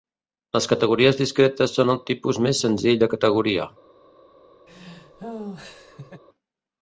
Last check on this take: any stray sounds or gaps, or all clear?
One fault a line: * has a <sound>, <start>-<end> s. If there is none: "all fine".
* has a laugh, 4.7-6.2 s